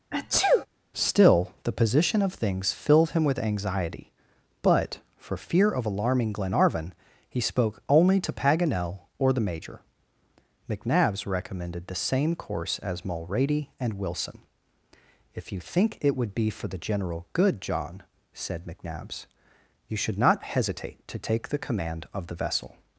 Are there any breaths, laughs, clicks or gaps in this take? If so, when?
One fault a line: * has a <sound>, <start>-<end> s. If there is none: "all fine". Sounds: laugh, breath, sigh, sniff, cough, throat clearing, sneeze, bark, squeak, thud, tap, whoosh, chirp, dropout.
* has a sneeze, 0.1-0.7 s